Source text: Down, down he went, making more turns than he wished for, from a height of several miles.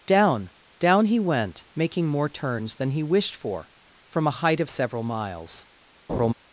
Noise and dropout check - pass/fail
fail